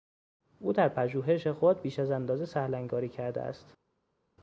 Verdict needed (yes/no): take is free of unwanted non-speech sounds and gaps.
yes